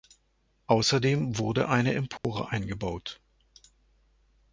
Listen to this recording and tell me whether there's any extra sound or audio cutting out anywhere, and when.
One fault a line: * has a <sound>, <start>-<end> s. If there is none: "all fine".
* has a dropout, 2.2-2.2 s